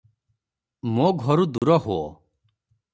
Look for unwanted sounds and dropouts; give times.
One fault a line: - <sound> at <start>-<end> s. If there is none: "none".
- dropout at 1.6-1.6 s